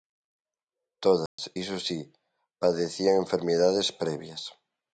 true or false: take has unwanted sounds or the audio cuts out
true